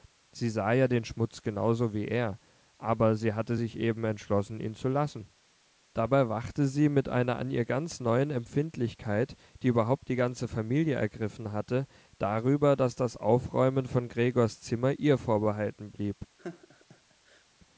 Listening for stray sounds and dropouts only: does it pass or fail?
fail